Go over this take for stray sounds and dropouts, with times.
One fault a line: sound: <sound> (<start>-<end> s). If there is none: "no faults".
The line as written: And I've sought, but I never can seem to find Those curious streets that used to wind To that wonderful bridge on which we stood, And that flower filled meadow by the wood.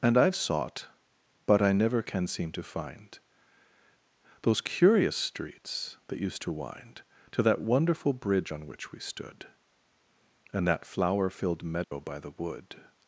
sound: dropout (11.8-11.9 s)